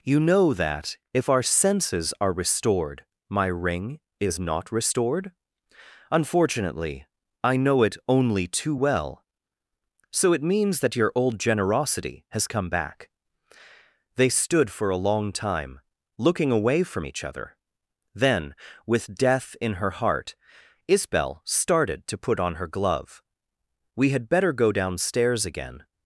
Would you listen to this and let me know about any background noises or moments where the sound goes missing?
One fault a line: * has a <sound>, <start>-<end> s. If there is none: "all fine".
all fine